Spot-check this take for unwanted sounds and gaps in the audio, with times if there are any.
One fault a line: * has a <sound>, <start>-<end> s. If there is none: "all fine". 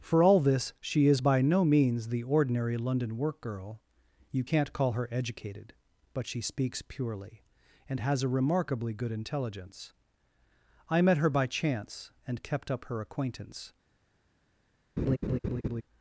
* has a laugh, 15.0-15.8 s